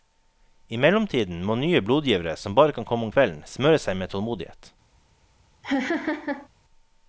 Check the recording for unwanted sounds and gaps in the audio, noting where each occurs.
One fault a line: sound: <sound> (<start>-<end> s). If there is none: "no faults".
sound: laugh (5.6-6.5 s)